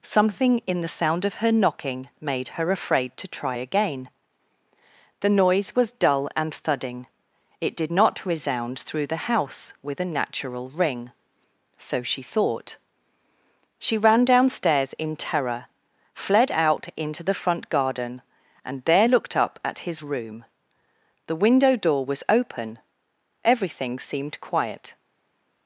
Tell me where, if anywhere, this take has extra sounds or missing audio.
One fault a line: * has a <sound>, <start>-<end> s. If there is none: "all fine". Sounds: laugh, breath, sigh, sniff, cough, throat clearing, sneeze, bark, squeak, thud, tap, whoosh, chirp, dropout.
all fine